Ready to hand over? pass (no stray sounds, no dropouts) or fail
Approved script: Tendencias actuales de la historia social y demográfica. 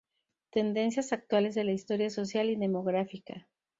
pass